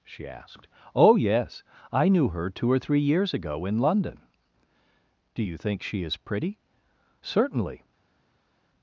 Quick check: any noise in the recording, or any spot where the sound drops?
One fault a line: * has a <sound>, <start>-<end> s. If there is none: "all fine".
all fine